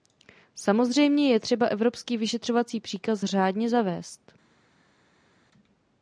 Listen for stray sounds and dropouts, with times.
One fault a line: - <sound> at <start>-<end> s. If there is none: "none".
none